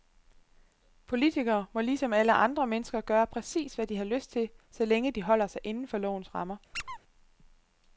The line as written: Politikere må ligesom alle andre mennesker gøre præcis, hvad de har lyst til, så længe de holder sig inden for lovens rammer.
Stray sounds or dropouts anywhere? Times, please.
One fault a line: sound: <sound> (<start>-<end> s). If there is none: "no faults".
sound: squeak (6.7-7.0 s)